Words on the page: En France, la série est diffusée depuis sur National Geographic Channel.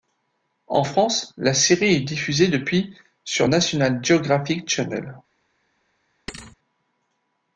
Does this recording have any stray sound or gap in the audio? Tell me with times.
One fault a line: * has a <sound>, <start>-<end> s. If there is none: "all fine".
* has a thud, 6.3-6.6 s